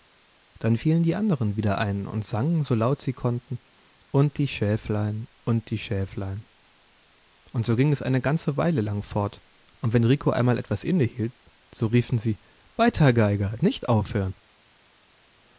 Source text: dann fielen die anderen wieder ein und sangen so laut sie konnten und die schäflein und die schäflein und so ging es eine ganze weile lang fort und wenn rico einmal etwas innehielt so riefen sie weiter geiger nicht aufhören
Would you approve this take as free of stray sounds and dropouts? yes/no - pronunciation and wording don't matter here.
yes